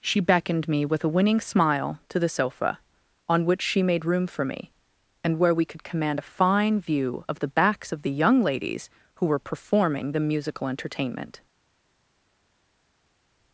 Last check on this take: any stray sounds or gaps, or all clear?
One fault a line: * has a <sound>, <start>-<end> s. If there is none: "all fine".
all fine